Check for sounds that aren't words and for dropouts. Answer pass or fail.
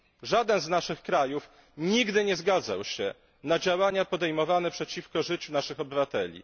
pass